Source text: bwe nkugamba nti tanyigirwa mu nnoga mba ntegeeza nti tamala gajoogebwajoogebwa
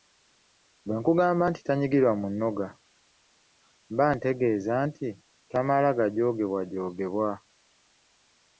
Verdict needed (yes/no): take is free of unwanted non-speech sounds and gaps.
yes